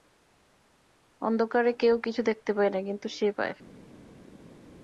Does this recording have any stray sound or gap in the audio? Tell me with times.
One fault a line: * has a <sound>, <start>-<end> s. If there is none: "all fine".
all fine